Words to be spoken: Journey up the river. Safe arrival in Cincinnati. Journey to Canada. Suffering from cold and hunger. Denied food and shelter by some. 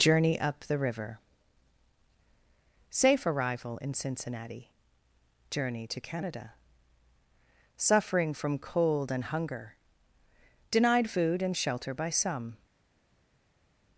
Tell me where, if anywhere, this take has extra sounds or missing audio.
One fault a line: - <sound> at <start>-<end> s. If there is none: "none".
none